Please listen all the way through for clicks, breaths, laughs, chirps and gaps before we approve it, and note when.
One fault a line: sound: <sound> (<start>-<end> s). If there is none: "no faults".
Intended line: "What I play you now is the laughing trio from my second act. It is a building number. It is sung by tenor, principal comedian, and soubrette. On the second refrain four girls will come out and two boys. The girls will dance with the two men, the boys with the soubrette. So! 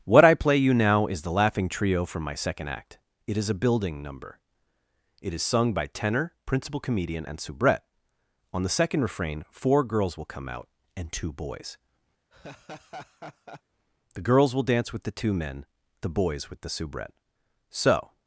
sound: laugh (12.3-13.6 s)